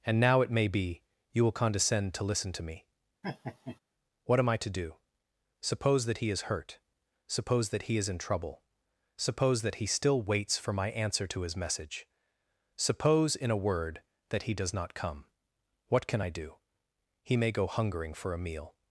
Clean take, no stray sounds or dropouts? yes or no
no